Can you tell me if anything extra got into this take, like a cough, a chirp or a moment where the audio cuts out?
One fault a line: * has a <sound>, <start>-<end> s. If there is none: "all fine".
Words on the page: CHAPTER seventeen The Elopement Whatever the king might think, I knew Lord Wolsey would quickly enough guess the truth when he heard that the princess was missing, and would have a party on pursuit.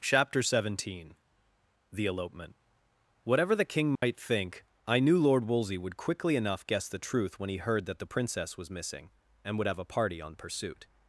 * has a dropout, 4.0-4.0 s